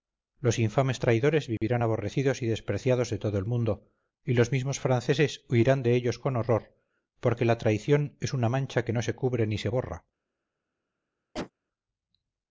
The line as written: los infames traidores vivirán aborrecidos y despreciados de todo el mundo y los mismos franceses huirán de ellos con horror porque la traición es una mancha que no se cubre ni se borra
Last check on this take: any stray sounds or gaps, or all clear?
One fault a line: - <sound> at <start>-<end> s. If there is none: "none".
- dropout at 1.6-1.6 s
- cough at 11.3-11.5 s